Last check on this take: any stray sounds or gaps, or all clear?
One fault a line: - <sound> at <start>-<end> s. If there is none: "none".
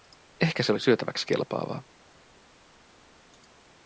none